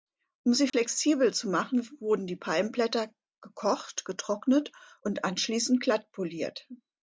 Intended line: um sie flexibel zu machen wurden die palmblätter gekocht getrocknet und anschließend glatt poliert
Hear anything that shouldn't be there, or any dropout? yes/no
yes